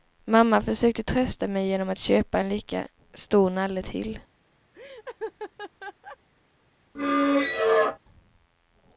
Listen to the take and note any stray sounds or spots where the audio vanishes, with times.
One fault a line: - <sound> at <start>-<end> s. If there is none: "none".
- laugh at 4.7-6.2 s
- squeak at 6.9-8.0 s